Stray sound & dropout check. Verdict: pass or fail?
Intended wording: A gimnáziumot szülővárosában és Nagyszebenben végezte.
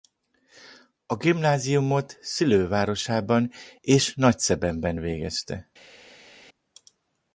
pass